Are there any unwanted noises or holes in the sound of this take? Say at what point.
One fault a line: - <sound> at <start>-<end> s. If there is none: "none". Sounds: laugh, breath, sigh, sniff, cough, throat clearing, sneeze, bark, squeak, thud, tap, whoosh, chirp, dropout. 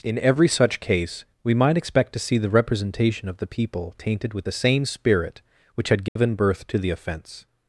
- dropout at 6.1-6.2 s